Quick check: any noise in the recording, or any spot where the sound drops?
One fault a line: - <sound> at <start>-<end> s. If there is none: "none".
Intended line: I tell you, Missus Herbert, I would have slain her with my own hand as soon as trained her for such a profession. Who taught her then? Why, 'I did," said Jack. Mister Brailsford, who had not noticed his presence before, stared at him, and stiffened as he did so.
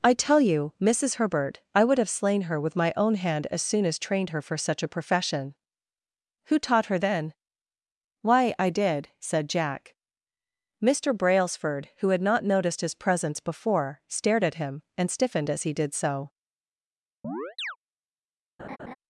- chirp at 17.2-17.8 s
- laugh at 18.6-19.0 s